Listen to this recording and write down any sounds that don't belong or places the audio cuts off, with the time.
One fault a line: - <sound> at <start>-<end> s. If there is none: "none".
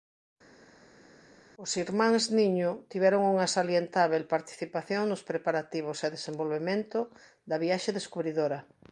none